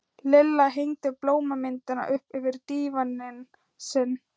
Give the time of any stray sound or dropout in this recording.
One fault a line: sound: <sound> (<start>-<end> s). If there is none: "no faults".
no faults